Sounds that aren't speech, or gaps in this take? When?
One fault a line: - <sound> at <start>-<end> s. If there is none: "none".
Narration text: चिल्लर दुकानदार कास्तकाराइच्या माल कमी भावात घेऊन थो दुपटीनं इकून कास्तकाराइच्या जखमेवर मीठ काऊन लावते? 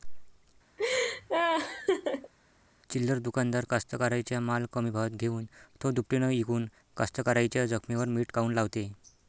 - laugh at 0.8-2.3 s